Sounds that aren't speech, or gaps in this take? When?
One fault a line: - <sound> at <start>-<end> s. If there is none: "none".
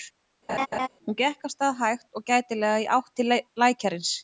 - laugh at 0.5-0.9 s